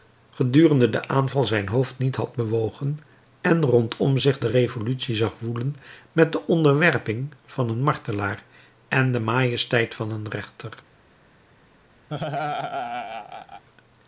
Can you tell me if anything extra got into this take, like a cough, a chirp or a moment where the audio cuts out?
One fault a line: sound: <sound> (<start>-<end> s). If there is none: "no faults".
sound: laugh (12.1-13.6 s)